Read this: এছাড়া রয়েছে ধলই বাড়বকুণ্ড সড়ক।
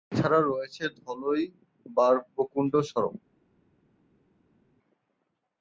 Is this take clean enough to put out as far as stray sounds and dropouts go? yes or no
yes